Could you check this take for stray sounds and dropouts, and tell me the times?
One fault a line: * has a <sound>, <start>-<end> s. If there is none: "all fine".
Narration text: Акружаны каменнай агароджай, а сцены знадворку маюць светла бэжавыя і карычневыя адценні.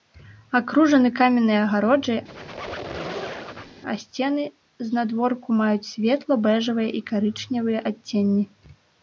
* has a squeak, 2.3-3.8 s